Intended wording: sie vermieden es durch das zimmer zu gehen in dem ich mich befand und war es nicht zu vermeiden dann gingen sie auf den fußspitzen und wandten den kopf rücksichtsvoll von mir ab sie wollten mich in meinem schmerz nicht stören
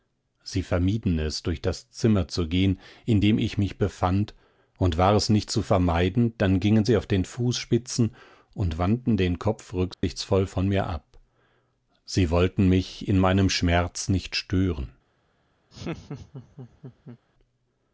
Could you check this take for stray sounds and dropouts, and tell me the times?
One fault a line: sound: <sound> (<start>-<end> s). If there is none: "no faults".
sound: dropout (9.9-10.0 s)
sound: laugh (15.7-17.2 s)